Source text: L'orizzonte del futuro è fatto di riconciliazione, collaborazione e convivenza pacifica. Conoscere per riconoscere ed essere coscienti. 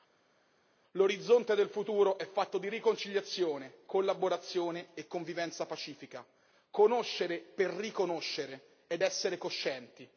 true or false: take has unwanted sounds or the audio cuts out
false